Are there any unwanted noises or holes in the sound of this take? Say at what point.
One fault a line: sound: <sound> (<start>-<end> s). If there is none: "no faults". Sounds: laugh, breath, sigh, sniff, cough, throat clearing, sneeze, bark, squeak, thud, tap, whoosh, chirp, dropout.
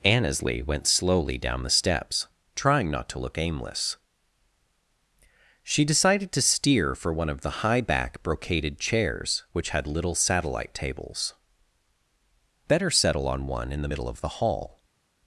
no faults